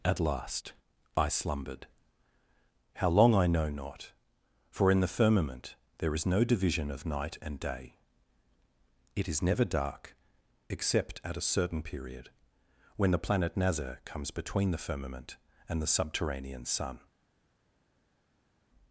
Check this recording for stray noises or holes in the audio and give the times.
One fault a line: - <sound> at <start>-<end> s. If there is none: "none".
none